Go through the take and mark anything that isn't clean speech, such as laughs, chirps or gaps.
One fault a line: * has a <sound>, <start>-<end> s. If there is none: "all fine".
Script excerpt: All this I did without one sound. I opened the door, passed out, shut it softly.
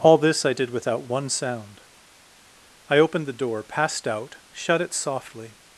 all fine